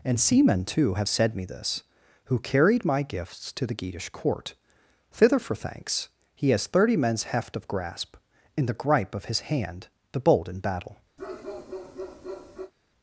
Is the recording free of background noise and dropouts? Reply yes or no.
no